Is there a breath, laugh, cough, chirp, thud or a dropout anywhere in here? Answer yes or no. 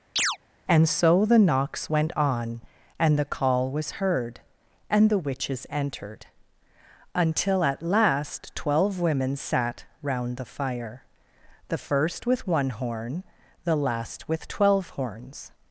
yes